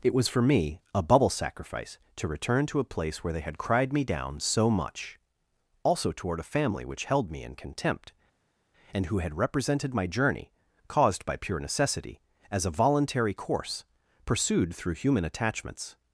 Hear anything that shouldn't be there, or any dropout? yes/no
no